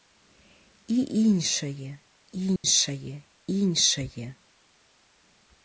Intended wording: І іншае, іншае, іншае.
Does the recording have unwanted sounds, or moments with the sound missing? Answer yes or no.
yes